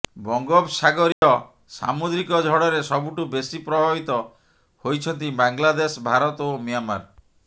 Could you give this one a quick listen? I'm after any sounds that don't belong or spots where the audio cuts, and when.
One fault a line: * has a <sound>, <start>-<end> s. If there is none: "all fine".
* has a dropout, 1.1-1.2 s